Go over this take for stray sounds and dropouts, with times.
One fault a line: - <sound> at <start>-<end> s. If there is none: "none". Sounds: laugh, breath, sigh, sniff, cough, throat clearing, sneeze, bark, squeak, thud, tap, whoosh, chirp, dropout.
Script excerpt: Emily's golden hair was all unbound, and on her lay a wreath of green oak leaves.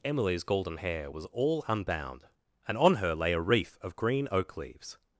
none